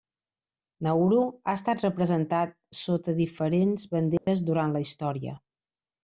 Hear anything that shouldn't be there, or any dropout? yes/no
yes